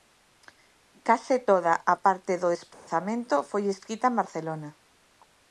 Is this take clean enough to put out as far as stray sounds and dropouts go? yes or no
no